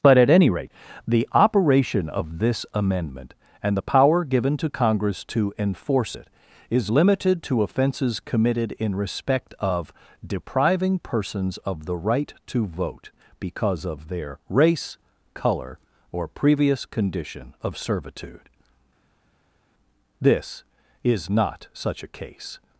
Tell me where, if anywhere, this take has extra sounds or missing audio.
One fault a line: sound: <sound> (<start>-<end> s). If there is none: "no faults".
no faults